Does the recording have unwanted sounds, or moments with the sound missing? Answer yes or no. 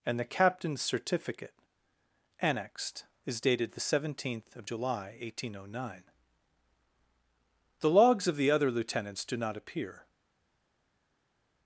no